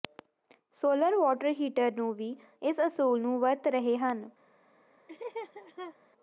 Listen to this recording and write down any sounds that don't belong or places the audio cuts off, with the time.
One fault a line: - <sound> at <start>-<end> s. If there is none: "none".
- laugh at 5.1-6.0 s